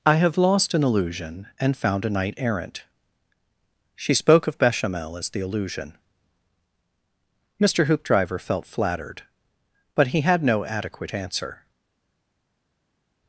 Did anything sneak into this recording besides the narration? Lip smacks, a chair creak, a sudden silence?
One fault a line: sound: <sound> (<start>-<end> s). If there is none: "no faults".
no faults